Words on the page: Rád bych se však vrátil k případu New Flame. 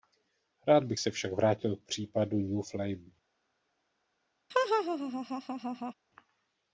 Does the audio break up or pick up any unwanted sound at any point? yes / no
yes